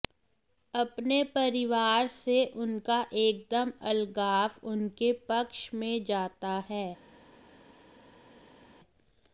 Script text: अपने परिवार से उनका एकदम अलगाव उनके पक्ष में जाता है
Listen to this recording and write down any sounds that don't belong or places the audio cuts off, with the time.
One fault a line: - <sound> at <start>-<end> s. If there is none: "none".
none